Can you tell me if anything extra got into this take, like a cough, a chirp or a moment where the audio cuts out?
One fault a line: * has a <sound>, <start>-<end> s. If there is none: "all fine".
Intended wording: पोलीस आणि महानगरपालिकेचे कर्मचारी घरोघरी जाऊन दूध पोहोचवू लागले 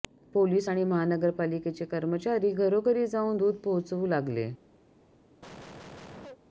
* has a cough, 5.4-6.4 s